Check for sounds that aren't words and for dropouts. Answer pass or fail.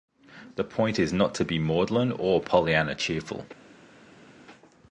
pass